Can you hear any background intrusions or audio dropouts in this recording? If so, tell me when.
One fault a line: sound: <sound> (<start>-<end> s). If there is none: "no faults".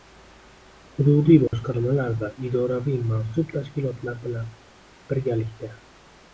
sound: dropout (1.5-1.5 s)